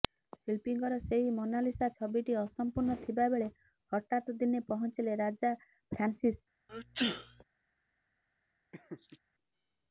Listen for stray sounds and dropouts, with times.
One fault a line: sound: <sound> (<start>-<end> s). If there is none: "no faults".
sound: sneeze (6.7-7.4 s)
sound: laugh (8.7-9.2 s)